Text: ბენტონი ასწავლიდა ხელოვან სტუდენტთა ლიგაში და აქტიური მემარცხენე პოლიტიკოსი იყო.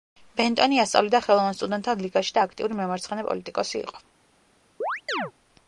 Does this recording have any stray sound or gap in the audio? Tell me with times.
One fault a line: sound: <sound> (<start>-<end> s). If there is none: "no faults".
sound: chirp (4.8-5.3 s)